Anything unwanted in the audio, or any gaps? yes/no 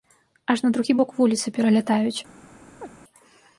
yes